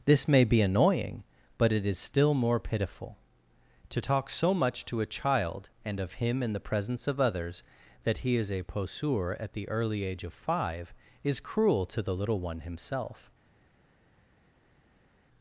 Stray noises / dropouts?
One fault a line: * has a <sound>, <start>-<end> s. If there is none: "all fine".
all fine